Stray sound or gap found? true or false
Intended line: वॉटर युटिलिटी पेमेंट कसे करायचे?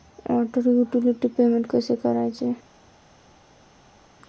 false